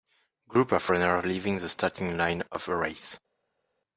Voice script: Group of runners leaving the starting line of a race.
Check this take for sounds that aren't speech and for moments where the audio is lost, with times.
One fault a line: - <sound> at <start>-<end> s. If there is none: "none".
none